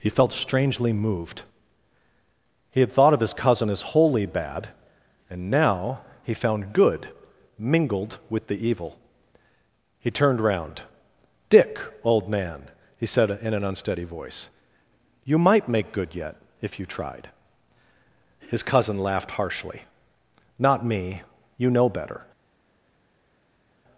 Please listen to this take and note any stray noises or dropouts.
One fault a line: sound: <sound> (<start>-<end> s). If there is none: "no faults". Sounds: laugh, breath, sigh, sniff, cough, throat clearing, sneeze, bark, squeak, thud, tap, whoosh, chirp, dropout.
no faults